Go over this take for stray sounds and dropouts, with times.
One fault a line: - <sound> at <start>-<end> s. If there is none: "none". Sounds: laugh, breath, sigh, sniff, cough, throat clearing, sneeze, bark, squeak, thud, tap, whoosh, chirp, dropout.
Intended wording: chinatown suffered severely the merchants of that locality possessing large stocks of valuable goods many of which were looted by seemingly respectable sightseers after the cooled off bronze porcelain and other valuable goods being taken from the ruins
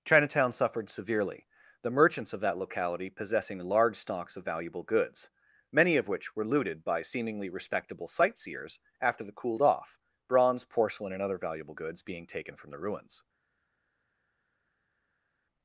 none